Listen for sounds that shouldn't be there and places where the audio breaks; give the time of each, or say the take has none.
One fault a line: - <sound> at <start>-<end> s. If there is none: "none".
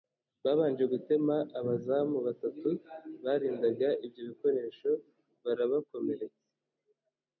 none